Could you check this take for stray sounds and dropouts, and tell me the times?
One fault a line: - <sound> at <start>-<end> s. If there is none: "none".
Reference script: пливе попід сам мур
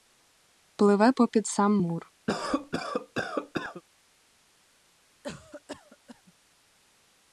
- cough at 2.3-3.8 s
- cough at 5.2-6.3 s